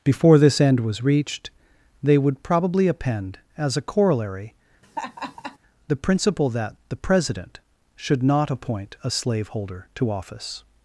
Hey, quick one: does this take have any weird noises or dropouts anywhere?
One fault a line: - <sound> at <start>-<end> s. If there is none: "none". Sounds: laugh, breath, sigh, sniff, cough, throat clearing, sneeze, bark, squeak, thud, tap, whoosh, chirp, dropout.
- laugh at 4.8-5.6 s